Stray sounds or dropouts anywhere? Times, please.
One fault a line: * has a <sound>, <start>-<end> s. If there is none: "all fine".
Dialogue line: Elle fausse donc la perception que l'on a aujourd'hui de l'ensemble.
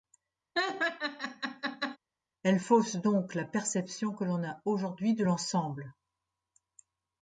* has a laugh, 0.6-2.0 s